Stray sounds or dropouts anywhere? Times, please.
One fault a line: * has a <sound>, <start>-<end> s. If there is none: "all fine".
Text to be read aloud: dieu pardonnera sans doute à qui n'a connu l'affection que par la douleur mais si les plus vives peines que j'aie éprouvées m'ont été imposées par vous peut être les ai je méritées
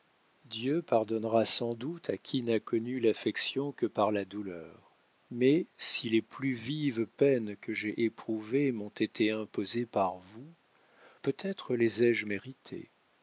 all fine